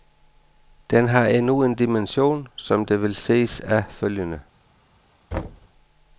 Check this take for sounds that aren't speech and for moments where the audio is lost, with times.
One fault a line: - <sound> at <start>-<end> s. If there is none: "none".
- thud at 5.3-5.7 s